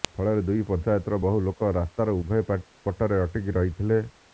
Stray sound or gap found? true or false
false